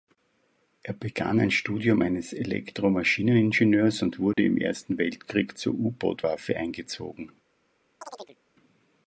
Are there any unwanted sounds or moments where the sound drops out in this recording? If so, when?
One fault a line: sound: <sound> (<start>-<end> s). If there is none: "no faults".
sound: dropout (4.3-4.4 s)
sound: chirp (8.0-8.4 s)